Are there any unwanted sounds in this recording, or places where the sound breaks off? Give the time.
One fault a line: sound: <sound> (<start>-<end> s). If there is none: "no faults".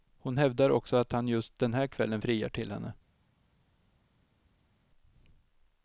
no faults